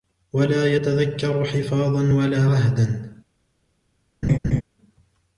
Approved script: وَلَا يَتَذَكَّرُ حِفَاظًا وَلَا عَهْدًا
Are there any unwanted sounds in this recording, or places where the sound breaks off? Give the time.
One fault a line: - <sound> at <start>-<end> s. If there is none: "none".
- laugh at 4.2-4.6 s